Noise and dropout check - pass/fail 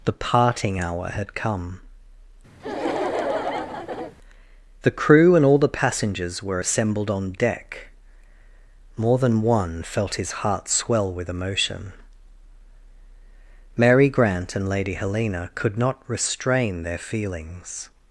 fail